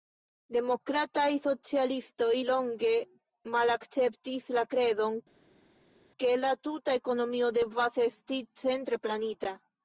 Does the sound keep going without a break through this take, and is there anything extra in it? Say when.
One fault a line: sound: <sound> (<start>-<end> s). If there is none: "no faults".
no faults